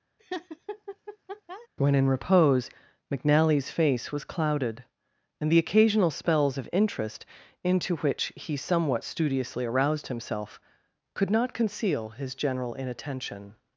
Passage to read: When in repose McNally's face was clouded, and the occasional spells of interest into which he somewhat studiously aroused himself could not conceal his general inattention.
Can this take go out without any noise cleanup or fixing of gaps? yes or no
no